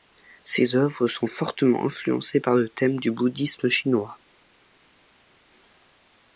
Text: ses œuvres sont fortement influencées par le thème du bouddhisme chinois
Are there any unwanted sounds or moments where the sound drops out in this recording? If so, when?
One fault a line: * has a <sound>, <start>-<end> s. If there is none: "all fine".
all fine